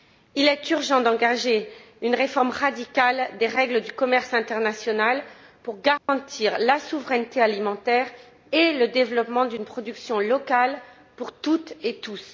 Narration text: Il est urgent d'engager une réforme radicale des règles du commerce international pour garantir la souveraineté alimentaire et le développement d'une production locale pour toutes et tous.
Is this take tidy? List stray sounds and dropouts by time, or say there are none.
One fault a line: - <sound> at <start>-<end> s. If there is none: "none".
- dropout at 6.0-6.1 s